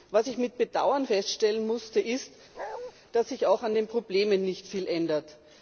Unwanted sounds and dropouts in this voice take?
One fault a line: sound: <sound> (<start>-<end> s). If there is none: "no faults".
sound: bark (2.5-2.9 s)